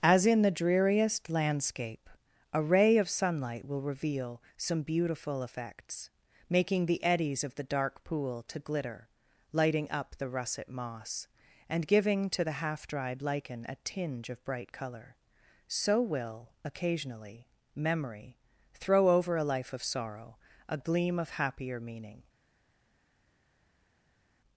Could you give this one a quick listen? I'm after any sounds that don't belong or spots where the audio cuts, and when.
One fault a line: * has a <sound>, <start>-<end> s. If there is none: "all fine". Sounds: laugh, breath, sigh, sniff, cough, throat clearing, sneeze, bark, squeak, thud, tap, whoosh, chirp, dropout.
all fine